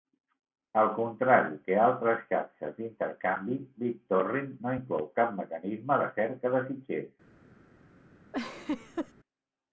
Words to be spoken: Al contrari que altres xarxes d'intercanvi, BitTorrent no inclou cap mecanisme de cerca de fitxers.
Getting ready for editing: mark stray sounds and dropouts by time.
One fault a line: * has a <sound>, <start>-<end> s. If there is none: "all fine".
* has a laugh, 8.3-9.1 s